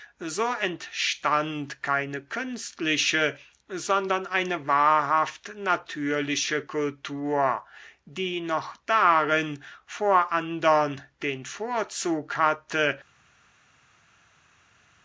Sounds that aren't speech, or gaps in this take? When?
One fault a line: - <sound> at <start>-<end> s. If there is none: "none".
none